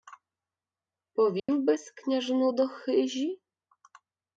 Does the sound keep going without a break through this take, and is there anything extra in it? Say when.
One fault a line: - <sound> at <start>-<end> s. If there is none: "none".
- dropout at 1.4-1.5 s